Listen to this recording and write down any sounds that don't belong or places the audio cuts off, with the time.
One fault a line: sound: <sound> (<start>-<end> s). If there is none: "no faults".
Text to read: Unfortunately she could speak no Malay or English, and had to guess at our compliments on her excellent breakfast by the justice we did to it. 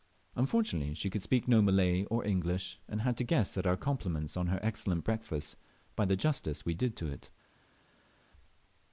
no faults